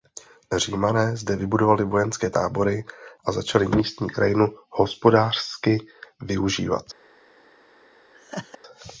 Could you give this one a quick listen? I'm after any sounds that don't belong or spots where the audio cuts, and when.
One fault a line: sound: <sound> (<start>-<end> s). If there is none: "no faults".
sound: laugh (8.1-8.6 s)